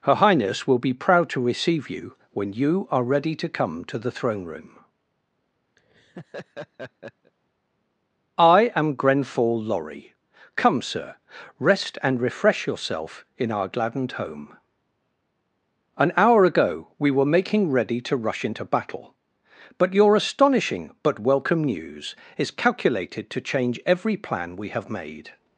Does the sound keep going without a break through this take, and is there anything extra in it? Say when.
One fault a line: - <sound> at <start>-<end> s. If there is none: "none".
- laugh at 5.8-7.3 s